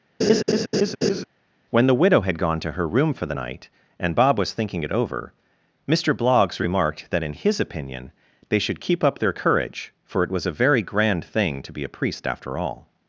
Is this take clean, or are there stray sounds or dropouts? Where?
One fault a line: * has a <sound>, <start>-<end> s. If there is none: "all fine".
* has a laugh, 0.2-1.2 s